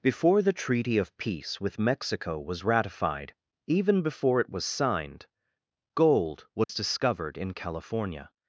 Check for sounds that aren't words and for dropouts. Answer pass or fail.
fail